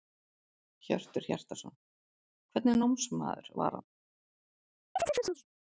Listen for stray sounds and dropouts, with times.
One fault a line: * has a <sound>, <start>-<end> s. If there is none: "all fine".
* has a chirp, 5.0-5.4 s